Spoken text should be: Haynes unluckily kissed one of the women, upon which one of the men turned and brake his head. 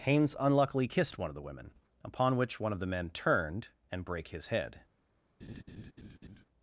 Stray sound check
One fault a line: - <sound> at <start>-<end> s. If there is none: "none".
- laugh at 5.4-6.5 s